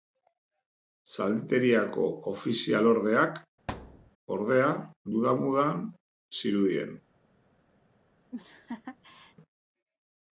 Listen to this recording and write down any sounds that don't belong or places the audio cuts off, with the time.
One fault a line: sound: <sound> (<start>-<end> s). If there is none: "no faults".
sound: thud (3.7-4.1 s)
sound: laugh (8.3-9.4 s)